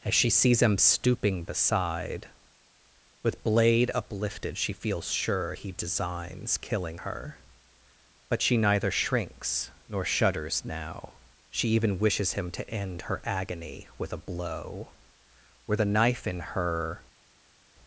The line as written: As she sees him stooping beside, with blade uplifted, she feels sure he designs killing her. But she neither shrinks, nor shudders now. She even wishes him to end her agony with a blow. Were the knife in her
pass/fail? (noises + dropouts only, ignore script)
pass